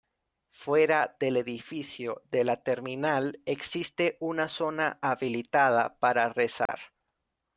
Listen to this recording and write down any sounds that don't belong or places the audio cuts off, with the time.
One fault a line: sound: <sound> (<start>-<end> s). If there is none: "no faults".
sound: dropout (6.7-6.7 s)